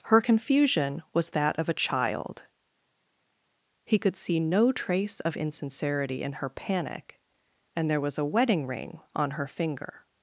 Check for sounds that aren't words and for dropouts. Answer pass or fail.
pass